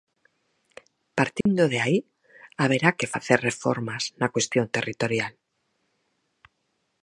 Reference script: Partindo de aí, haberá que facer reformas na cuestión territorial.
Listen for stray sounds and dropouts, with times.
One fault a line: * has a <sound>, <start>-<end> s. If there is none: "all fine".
* has a dropout, 1.4-1.5 s